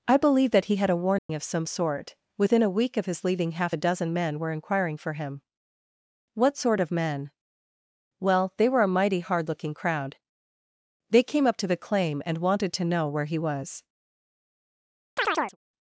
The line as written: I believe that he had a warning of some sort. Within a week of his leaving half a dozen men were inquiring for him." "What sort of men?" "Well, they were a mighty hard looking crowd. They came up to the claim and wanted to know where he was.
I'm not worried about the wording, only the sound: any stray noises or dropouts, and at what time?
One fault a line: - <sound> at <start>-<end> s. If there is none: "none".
- dropout at 1.2-1.3 s
- chirp at 15.2-15.6 s